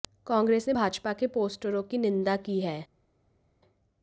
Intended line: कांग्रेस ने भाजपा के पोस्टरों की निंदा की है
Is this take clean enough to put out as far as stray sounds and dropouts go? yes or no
yes